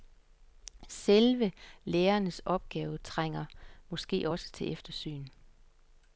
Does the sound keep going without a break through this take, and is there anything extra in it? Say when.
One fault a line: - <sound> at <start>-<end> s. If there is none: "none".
none